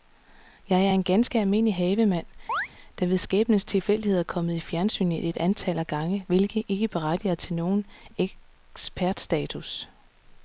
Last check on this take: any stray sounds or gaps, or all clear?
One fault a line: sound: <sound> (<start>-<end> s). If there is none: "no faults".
sound: chirp (2.5-2.7 s)